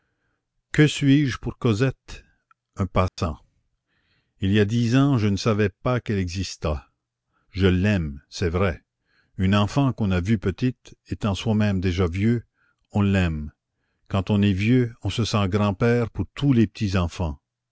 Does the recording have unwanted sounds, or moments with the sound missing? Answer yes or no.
yes